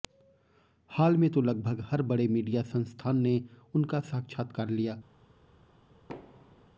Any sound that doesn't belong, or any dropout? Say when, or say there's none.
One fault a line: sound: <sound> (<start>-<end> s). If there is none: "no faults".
sound: thud (6.1-6.7 s)